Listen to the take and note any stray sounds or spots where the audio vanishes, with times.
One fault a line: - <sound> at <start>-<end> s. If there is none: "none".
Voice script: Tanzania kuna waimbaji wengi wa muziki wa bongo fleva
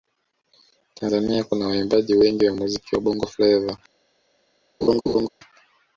- laugh at 4.8-5.3 s